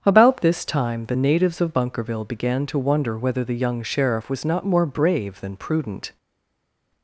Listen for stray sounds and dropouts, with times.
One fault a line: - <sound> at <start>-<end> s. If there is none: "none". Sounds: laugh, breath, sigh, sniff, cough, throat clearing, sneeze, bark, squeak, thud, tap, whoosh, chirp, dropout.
none